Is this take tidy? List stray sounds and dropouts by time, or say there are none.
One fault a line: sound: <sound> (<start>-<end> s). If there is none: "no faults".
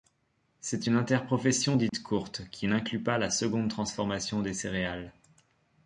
sound: dropout (1.9-1.9 s)